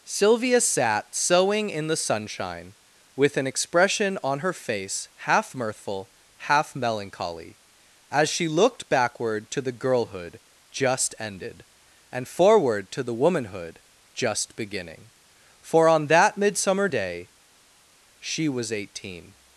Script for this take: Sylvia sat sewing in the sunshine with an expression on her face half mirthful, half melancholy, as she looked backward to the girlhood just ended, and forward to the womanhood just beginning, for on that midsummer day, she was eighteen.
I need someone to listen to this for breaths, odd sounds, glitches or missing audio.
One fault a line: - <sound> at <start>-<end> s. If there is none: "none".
none